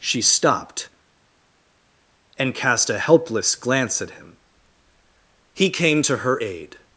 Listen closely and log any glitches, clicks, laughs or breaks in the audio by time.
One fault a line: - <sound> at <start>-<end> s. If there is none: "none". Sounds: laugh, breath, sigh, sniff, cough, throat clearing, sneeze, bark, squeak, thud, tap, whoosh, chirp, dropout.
none